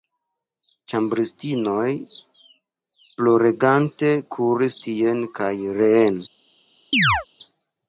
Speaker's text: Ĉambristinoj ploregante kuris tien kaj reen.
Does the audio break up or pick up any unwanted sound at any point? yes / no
yes